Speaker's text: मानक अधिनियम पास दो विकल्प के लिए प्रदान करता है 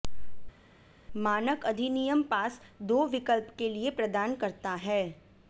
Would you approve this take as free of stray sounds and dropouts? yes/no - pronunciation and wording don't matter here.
yes